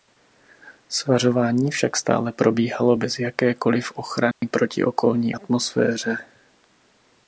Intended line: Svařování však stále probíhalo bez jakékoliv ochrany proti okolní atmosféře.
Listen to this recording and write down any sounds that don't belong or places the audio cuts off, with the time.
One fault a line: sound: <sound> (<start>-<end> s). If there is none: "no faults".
sound: dropout (4.3-4.4 s)